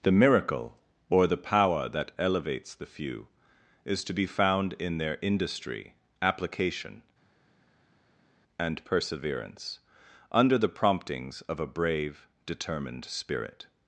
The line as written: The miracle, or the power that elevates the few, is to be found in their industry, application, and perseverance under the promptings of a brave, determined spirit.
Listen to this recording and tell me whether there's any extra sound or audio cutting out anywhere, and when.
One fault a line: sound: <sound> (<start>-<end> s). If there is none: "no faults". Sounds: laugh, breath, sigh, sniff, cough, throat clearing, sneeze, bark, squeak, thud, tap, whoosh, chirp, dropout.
no faults